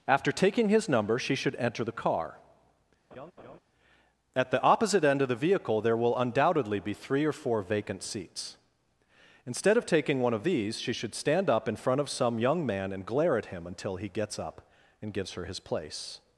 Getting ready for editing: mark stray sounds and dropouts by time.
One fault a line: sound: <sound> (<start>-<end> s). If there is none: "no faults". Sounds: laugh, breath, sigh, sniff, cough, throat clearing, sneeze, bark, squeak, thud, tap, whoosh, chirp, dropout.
sound: laugh (3.1-3.6 s)